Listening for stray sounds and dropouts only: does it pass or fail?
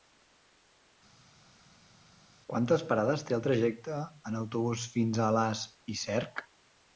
pass